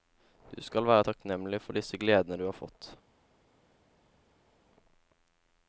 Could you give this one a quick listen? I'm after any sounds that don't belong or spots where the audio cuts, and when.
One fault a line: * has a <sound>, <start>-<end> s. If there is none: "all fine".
all fine